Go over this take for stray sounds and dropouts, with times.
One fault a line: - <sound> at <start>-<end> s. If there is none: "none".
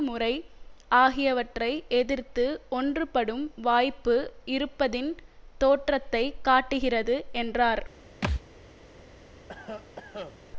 - thud at 8.2-8.4 s
- cough at 9.5-10.4 s